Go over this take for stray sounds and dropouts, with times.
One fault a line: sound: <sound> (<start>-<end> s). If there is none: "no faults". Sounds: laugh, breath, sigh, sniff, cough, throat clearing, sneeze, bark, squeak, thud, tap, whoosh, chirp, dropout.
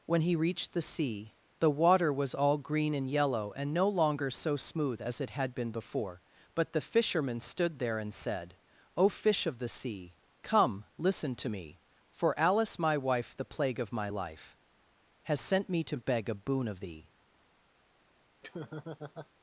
sound: laugh (18.4-19.3 s)